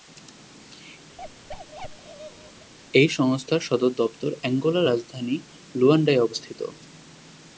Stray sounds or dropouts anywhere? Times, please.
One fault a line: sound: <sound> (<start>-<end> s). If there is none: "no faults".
sound: bark (1.2-2.7 s)